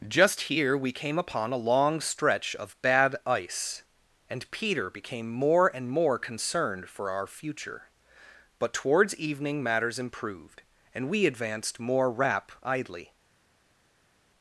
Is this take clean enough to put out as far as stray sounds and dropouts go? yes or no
yes